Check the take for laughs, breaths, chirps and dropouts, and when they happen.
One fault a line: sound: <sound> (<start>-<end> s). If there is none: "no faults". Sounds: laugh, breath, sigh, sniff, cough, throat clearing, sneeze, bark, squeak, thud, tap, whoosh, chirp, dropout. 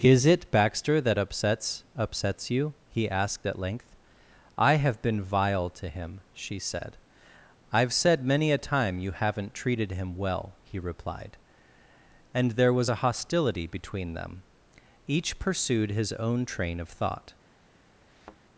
sound: thud (18.1-18.4 s)